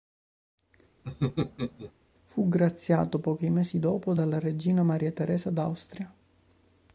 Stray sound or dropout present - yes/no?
yes